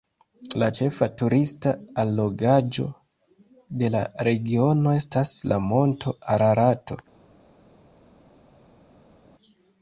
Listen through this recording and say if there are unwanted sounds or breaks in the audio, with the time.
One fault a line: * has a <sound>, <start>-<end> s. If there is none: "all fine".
all fine